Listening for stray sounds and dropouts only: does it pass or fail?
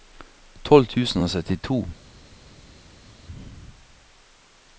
pass